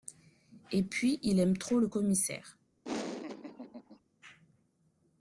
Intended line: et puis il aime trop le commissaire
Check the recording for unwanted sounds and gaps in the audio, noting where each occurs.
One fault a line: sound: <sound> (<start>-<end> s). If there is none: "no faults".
sound: laugh (2.8-4.0 s)